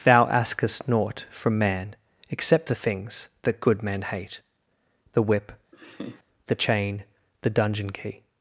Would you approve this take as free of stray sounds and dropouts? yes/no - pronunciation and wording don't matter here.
no